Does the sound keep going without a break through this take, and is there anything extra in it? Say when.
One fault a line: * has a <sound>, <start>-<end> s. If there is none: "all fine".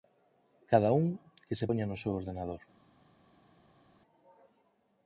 all fine